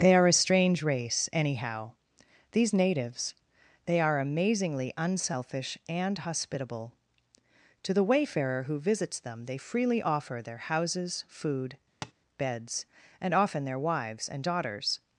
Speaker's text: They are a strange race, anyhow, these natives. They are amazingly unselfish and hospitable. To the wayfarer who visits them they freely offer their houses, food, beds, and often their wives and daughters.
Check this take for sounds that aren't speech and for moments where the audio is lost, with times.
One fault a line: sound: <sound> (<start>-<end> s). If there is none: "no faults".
sound: tap (12.0-12.1 s)